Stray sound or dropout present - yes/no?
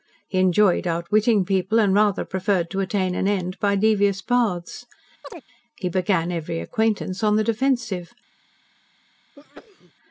yes